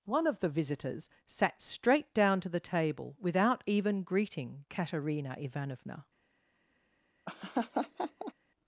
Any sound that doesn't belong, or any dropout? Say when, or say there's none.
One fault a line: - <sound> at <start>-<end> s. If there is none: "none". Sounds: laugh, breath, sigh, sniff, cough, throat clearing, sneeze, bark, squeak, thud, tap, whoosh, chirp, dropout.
- laugh at 7.3-8.3 s